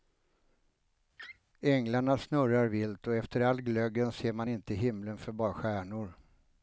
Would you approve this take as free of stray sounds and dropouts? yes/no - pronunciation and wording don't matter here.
no